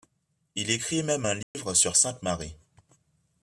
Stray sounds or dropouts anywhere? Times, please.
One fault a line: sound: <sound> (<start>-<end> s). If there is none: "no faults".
sound: dropout (1.4-1.5 s)